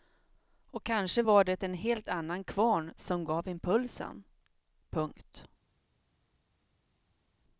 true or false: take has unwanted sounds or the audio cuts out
false